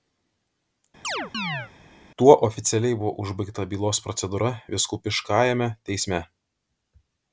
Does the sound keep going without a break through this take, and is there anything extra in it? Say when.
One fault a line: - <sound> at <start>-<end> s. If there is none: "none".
- chirp at 1.0-1.7 s